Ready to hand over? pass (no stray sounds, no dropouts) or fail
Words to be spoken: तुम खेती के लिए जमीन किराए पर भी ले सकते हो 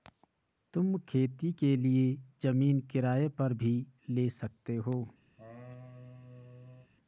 fail